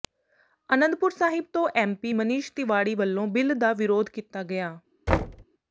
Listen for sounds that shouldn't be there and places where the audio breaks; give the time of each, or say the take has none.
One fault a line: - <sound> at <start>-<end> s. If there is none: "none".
- thud at 5.1-5.4 s